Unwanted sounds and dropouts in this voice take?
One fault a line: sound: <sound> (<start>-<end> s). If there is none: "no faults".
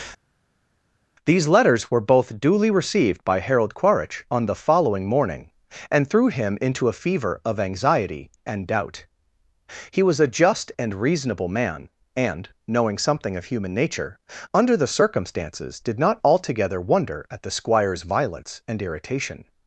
no faults